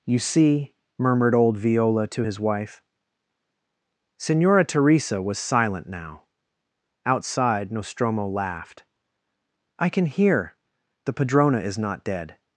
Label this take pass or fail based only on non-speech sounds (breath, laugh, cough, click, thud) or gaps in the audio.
pass